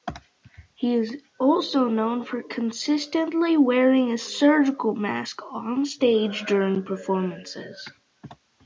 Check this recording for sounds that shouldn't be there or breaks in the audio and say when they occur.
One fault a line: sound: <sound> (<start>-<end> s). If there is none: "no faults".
no faults